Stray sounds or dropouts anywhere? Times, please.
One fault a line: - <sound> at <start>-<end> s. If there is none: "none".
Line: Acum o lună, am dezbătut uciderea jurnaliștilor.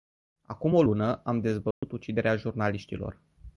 - dropout at 1.7-1.8 s